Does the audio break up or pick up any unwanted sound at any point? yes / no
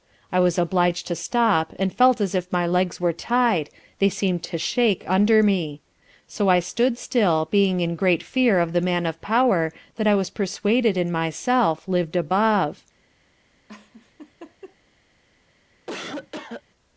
yes